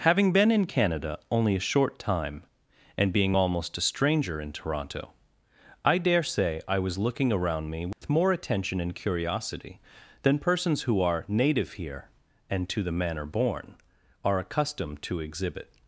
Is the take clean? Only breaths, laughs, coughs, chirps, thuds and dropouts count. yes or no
no